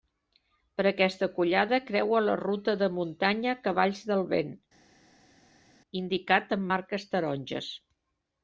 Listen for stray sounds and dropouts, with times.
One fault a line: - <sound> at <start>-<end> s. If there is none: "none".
none